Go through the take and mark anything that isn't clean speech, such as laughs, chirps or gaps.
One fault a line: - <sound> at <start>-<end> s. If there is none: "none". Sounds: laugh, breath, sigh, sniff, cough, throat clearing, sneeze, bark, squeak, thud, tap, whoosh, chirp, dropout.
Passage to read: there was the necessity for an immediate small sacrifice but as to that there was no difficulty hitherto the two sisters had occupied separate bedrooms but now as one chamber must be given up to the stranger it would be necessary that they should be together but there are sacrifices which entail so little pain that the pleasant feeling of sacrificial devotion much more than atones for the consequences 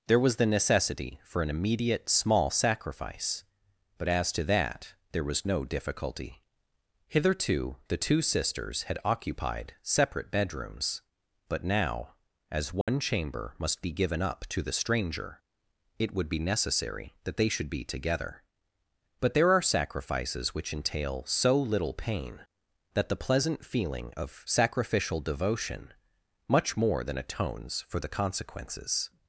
- dropout at 12.8-12.9 s